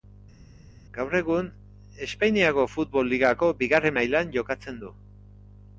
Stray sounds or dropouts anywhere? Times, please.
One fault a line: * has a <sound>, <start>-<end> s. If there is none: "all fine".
all fine